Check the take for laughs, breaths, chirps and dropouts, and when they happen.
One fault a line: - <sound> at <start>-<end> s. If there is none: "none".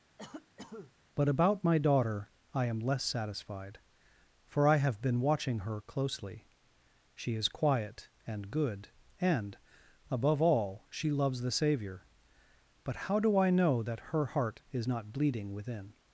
- cough at 0.2-0.9 s